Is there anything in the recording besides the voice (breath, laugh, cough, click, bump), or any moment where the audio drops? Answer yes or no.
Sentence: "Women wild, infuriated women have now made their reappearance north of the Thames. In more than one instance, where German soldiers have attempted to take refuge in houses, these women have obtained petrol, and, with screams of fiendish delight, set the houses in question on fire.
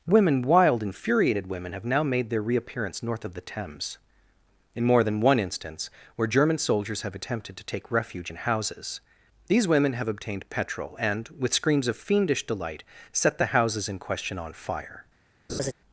yes